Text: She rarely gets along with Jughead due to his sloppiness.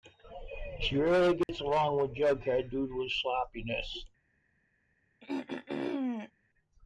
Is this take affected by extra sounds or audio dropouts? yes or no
yes